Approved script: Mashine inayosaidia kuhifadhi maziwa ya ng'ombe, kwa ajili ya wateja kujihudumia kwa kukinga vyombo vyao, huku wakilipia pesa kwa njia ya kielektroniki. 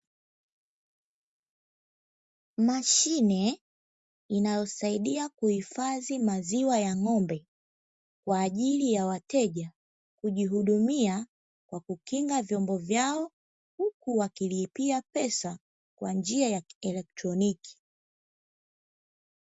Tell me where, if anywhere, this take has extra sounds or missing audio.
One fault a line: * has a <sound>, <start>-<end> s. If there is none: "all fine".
all fine